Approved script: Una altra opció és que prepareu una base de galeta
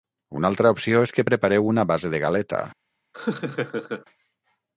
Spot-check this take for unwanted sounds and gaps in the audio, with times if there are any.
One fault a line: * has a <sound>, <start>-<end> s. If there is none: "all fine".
* has a laugh, 3.1-4.1 s